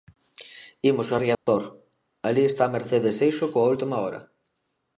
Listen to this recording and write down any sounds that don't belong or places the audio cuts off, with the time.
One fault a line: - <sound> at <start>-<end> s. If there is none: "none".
- dropout at 1.3-1.5 s